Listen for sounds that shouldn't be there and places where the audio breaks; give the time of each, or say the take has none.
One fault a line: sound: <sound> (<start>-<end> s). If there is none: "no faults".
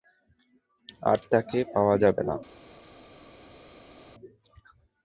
no faults